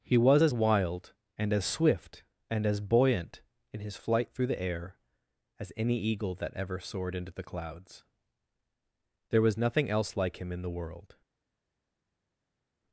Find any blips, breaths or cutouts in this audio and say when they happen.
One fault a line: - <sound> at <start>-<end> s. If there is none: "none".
none